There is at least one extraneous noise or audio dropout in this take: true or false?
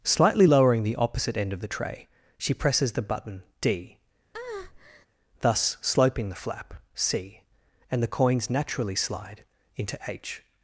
true